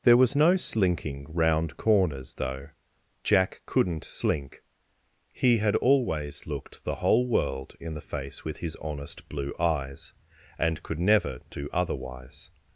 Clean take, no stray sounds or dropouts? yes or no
yes